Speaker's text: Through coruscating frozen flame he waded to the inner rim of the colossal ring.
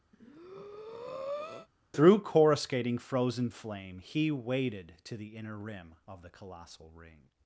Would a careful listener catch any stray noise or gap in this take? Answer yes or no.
yes